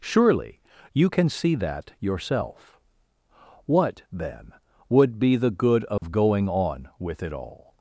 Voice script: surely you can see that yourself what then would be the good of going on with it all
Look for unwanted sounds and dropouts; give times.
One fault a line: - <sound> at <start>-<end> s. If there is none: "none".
- dropout at 6.0-6.0 s